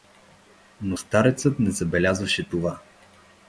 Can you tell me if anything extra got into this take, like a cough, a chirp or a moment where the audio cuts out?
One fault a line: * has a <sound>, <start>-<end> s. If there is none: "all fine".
all fine